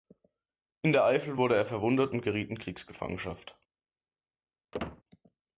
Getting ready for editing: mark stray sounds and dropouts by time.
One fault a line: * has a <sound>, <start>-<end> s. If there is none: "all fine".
* has a squeak, 4.7-5.0 s